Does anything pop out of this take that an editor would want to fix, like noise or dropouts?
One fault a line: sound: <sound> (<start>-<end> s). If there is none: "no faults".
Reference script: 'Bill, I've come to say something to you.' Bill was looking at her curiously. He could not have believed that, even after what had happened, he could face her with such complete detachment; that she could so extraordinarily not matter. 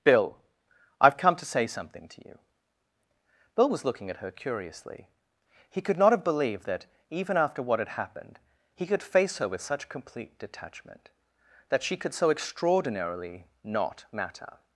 no faults